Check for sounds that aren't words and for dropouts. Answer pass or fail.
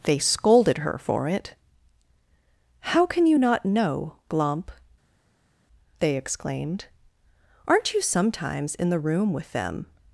pass